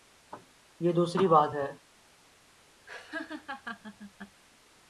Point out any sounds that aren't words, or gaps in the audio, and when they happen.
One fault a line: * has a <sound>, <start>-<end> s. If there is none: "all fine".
* has a laugh, 2.9-4.4 s